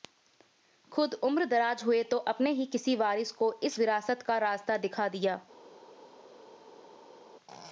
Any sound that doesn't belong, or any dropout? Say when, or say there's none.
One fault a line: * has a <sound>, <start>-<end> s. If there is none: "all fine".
all fine